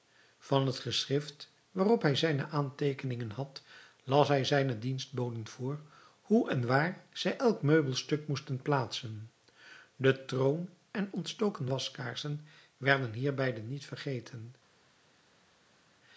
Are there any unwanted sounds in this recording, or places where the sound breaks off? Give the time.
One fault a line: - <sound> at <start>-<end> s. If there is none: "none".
none